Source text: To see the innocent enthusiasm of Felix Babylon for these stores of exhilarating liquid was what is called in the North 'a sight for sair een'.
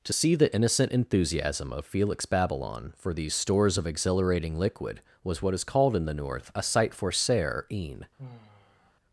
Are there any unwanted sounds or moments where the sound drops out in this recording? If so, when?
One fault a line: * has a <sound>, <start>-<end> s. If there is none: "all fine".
* has a sigh, 8.2-8.9 s